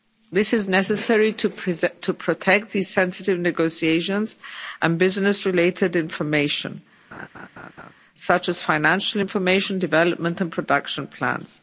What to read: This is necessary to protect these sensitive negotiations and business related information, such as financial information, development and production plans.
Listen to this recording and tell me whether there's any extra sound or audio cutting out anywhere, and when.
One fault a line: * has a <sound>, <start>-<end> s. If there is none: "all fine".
* has a laugh, 7.1-7.9 s